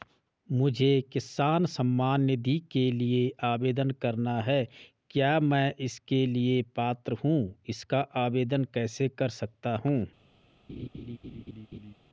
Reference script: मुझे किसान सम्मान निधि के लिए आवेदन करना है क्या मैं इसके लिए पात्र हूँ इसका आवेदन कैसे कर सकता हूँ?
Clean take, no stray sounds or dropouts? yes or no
no